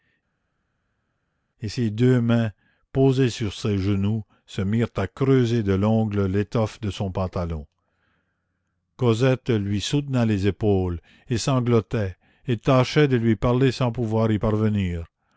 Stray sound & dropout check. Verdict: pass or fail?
pass